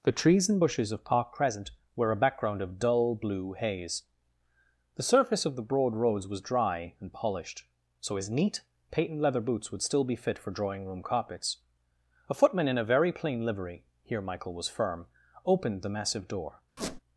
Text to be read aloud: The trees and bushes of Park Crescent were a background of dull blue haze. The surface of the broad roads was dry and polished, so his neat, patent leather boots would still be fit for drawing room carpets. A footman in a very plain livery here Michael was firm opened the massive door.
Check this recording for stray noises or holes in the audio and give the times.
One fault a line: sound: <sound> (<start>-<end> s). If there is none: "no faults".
sound: squeak (16.8-17.0 s)